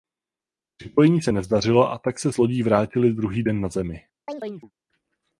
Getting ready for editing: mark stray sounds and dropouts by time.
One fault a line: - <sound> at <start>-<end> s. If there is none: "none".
- chirp at 4.3-4.7 s